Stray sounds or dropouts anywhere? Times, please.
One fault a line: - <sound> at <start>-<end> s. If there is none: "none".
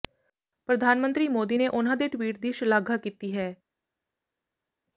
none